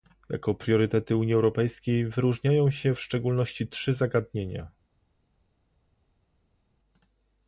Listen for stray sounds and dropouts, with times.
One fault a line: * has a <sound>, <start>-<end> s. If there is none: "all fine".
all fine